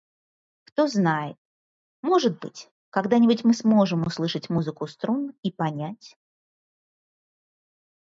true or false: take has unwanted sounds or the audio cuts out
false